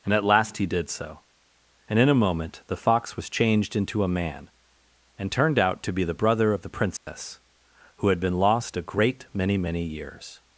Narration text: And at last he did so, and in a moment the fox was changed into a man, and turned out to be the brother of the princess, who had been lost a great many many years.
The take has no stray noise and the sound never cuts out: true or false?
false